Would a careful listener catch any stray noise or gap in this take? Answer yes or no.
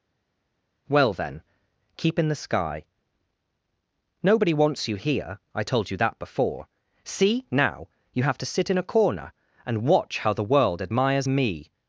no